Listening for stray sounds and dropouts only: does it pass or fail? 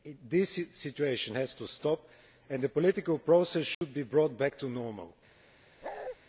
fail